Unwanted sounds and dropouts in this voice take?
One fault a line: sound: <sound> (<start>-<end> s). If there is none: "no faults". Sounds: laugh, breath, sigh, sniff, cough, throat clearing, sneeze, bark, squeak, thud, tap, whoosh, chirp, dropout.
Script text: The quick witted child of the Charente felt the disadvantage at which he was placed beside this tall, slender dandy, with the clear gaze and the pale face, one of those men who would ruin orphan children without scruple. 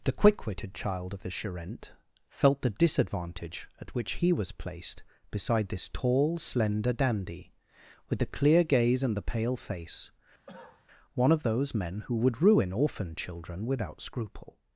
sound: cough (10.5-10.9 s)